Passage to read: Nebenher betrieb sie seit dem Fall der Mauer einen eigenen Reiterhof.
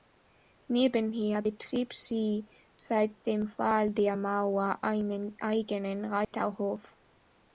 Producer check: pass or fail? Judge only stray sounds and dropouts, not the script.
fail